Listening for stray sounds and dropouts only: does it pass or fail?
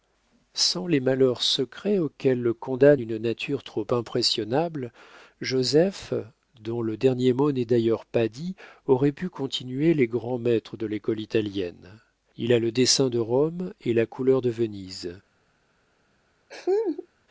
fail